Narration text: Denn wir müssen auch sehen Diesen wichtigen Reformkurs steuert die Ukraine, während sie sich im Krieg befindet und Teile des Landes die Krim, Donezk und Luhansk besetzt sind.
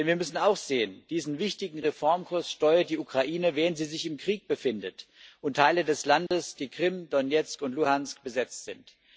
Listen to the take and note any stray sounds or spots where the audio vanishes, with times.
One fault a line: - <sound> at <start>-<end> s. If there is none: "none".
- dropout at 6.3-6.3 s